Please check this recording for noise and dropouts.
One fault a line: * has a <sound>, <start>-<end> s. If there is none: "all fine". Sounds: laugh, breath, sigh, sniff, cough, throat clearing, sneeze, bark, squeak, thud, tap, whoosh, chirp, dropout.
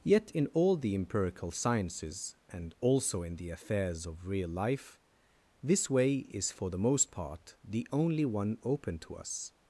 all fine